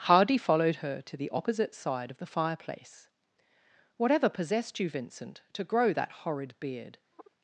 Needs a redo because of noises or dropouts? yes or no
yes